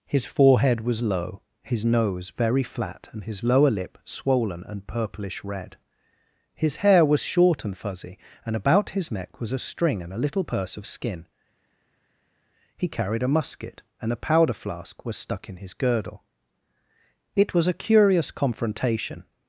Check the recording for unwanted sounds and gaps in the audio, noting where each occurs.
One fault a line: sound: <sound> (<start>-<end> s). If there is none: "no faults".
no faults